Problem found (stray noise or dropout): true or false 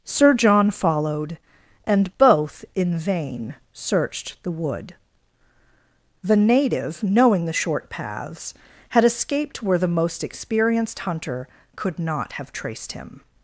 false